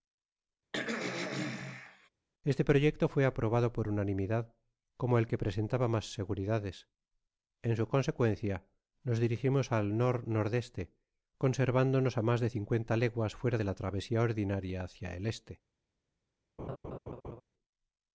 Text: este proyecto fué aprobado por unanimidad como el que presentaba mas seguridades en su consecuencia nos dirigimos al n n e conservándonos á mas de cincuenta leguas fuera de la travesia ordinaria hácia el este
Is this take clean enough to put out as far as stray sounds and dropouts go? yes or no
no